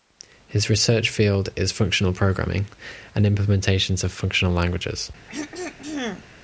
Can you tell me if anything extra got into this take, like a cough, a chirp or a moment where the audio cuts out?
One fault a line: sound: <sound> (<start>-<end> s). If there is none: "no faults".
sound: throat clearing (5.3-6.2 s)